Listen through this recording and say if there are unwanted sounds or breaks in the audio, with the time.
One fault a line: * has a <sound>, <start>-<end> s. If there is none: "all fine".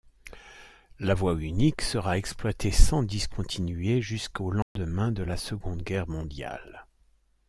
* has a dropout, 4.6-4.8 s